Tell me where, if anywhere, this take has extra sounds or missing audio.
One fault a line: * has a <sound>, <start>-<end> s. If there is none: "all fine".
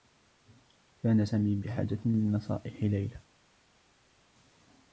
all fine